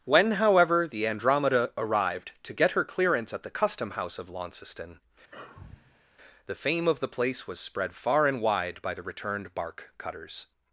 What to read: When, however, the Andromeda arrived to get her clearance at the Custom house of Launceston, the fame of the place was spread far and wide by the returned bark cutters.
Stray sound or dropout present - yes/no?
yes